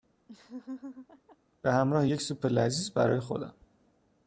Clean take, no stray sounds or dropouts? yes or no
no